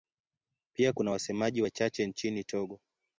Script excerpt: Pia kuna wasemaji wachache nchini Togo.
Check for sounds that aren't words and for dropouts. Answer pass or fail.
pass